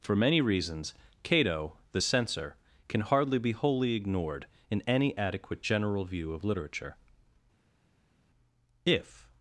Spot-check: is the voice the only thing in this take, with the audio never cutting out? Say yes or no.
yes